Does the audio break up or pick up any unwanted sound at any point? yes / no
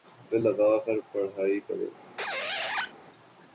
yes